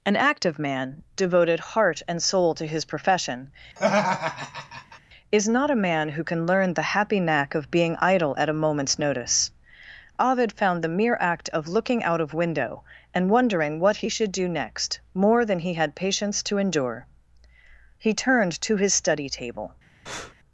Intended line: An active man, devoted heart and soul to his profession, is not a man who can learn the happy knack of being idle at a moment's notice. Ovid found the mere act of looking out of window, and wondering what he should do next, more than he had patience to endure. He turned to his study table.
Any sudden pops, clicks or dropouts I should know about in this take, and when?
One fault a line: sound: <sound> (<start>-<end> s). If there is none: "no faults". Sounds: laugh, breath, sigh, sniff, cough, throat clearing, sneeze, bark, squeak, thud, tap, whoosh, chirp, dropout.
sound: laugh (3.8-5.0 s)
sound: breath (20.1-20.3 s)